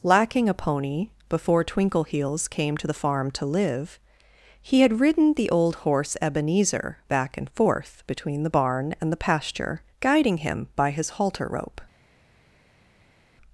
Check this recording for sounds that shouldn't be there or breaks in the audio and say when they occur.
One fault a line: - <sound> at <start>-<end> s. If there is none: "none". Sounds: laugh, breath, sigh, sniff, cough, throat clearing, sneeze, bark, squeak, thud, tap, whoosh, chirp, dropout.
none